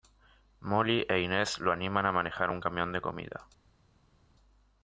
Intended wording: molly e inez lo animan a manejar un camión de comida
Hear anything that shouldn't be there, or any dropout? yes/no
no